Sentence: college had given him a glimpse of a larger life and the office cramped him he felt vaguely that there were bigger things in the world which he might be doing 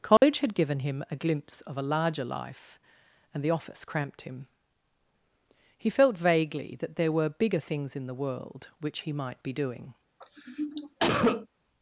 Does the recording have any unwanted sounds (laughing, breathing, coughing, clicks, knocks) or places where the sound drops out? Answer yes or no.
yes